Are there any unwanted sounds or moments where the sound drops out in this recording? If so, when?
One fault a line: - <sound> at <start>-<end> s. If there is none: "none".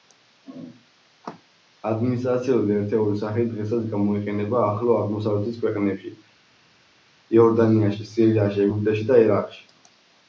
none